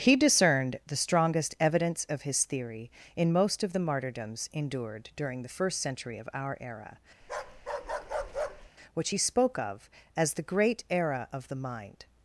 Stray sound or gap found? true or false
true